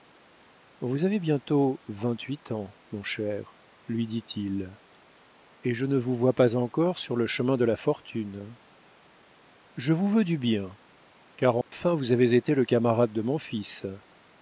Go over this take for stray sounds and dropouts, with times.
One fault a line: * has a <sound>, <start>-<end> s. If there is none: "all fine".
* has a dropout, 11.6-11.7 s